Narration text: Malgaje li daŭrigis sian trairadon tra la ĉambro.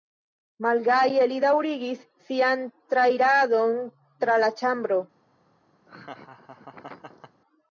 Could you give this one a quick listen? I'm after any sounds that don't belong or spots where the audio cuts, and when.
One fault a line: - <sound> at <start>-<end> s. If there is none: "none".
- laugh at 5.9-7.4 s